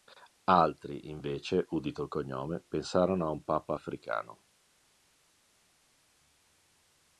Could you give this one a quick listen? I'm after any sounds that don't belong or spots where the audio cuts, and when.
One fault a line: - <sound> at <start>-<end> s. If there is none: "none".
none